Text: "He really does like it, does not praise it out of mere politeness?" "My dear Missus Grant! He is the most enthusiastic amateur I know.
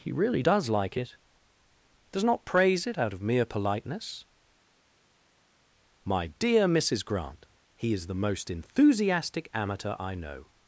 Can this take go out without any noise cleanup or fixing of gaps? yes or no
yes